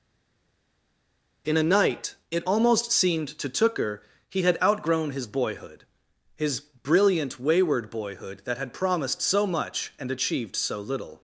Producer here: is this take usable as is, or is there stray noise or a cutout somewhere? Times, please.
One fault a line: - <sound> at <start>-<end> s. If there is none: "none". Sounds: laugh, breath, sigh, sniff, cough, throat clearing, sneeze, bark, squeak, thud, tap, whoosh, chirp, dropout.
none